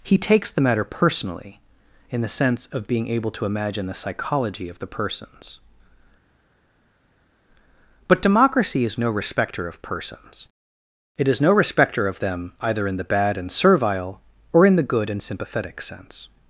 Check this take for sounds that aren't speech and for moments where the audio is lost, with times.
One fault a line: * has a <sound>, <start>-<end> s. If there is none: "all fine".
all fine